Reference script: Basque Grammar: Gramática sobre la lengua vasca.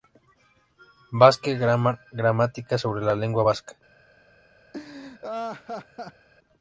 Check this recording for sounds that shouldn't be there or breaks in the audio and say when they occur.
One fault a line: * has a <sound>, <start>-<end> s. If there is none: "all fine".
* has a laugh, 4.7-6.3 s